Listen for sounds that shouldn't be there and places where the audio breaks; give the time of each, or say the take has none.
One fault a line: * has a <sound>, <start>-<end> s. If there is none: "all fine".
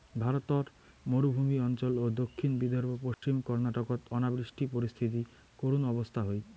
* has a dropout, 3.1-3.2 s